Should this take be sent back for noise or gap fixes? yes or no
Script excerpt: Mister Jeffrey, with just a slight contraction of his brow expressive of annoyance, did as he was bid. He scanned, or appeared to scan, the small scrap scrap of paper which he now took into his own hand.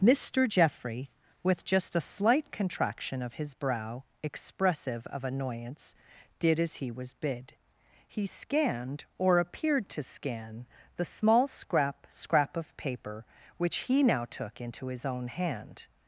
no